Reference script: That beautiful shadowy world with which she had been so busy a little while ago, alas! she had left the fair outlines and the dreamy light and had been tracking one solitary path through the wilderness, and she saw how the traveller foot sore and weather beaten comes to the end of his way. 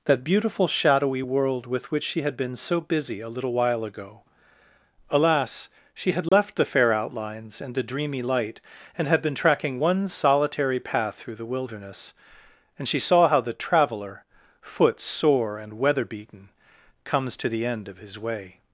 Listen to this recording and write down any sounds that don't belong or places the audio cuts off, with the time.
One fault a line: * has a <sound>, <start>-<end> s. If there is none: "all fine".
* has a dropout, 6.3-6.3 s